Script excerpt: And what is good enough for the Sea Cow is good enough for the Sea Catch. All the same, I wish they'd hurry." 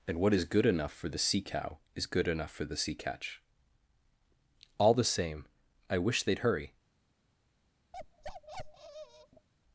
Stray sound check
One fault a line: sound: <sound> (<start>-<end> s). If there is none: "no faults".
sound: bark (7.9-9.5 s)